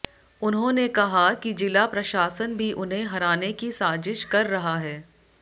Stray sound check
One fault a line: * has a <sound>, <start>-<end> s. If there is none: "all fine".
all fine